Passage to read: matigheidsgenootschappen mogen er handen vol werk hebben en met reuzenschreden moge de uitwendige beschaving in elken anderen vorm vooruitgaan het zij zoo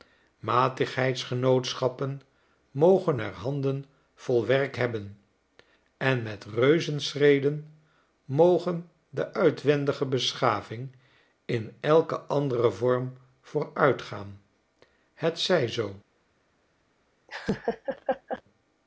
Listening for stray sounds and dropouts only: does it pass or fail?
fail